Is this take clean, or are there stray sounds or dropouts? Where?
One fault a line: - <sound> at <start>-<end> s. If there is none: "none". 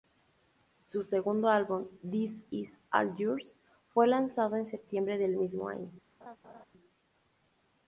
- laugh at 6.2-6.6 s